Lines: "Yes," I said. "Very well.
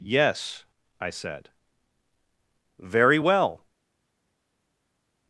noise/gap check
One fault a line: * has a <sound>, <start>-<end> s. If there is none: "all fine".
all fine